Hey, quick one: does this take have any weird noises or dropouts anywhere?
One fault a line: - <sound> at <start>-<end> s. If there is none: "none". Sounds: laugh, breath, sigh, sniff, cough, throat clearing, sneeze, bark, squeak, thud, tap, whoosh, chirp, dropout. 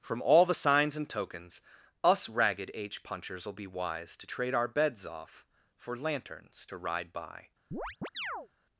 - chirp at 7.7-8.5 s